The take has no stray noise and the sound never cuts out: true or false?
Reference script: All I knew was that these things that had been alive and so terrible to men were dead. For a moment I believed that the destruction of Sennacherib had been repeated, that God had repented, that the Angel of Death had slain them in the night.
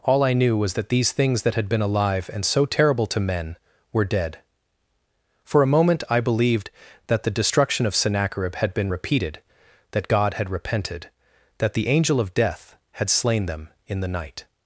true